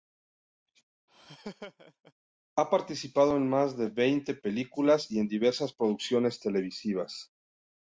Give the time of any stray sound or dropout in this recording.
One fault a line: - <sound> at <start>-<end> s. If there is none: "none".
- laugh at 1.1-2.1 s